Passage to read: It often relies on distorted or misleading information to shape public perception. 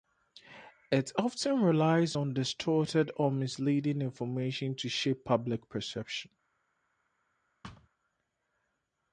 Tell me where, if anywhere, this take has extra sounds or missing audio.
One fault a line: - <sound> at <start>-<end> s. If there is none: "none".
- thud at 7.6-7.9 s